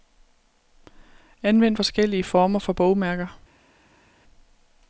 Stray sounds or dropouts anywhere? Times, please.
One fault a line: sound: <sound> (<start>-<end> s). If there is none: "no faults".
no faults